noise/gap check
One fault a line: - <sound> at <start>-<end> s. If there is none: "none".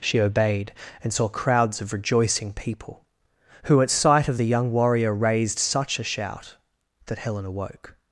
none